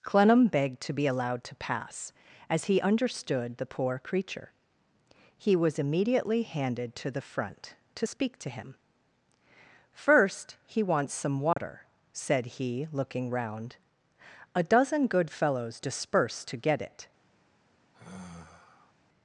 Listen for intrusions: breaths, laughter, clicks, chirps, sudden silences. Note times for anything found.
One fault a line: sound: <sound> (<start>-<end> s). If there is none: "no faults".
sound: dropout (11.5-11.6 s)
sound: sigh (17.9-18.9 s)